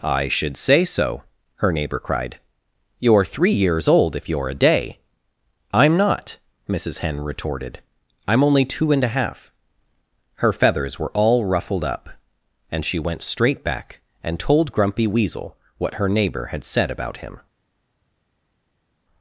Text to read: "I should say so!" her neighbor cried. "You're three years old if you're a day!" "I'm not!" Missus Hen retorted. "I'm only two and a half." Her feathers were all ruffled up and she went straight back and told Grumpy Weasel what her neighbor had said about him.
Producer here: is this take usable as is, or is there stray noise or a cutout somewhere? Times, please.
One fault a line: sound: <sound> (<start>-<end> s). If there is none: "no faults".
no faults